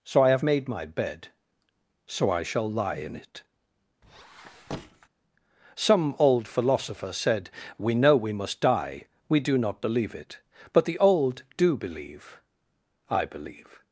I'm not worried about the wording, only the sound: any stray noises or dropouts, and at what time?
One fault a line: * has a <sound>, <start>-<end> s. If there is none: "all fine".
* has a squeak, 4.0-5.1 s